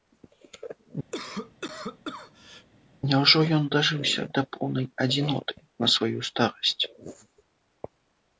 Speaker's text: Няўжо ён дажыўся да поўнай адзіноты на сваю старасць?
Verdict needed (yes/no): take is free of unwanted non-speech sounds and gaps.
no